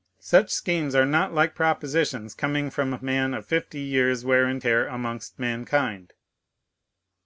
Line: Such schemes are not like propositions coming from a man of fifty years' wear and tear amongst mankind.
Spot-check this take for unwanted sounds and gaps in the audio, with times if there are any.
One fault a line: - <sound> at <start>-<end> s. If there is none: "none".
none